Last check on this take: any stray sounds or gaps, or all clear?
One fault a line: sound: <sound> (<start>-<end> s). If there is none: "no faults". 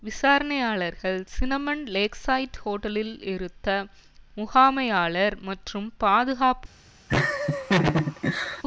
sound: laugh (7.1-8.6 s)